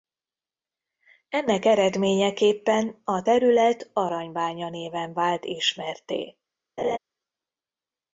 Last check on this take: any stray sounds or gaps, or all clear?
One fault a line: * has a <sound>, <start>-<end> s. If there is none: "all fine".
* has a laugh, 6.8-7.0 s